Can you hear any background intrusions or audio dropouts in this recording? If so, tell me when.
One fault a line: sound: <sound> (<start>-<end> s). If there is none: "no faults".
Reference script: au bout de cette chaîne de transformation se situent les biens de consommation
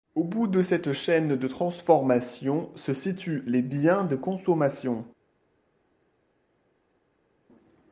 no faults